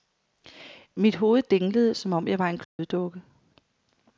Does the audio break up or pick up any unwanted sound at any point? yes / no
yes